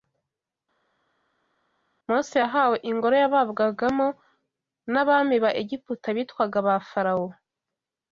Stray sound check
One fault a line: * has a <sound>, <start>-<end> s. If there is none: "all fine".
all fine